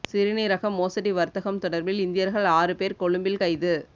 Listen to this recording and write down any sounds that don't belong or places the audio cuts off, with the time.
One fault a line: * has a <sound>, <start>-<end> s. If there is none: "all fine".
all fine